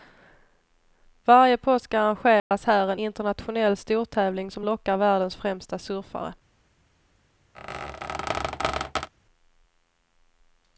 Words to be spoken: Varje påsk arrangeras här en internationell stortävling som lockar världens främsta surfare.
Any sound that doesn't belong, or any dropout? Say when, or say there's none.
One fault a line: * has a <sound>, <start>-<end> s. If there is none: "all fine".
* has a dropout, 2.4-2.5 s
* has a squeak, 7.5-9.1 s